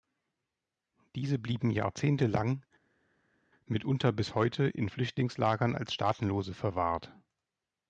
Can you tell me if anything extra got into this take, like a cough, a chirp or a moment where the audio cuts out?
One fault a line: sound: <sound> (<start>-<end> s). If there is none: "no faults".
no faults